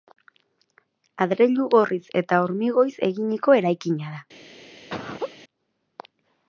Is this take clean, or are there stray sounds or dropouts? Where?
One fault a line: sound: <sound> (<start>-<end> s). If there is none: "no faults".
sound: laugh (4.9-5.4 s)